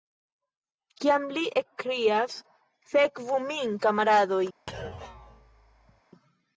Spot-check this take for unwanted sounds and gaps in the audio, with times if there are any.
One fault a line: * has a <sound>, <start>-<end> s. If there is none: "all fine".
* has a thud, 4.7-6.0 s